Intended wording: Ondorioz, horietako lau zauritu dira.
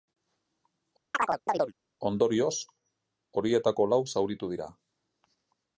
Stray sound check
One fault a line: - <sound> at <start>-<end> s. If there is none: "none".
- chirp at 1.1-1.7 s